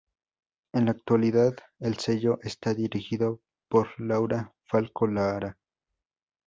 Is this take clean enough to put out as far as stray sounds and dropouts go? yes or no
yes